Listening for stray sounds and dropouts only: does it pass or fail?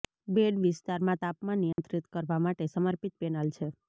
fail